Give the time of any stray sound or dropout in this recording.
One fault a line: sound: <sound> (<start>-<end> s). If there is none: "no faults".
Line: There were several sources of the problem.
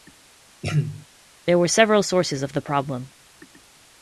sound: throat clearing (0.6-1.1 s)